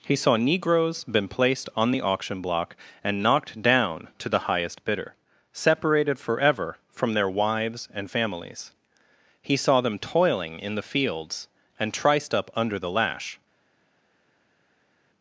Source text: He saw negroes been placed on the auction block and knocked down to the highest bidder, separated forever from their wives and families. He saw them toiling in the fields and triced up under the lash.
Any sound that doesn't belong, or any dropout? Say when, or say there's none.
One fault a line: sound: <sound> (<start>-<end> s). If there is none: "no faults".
no faults